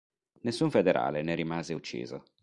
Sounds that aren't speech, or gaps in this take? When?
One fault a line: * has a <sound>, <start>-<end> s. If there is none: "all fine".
all fine